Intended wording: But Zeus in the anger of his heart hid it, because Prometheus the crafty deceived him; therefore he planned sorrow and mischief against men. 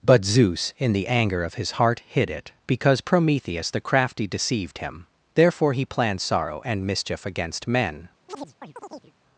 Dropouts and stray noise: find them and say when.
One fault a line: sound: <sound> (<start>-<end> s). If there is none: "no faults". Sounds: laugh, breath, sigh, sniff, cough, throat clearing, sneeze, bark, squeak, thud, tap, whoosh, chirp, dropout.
sound: chirp (8.3-9.1 s)